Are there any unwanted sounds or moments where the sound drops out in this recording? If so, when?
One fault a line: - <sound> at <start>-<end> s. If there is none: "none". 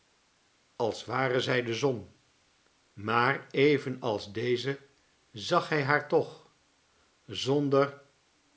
none